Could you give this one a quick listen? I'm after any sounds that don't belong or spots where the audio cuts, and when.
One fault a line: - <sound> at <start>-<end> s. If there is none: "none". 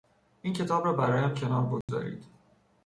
- dropout at 1.8-1.9 s